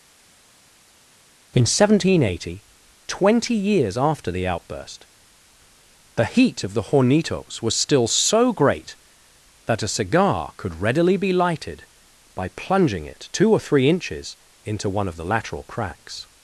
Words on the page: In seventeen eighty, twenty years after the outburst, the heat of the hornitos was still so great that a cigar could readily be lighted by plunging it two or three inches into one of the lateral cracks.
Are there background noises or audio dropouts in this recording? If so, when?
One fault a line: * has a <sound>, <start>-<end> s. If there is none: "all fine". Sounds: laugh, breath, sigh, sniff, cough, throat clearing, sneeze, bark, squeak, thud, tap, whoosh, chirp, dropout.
all fine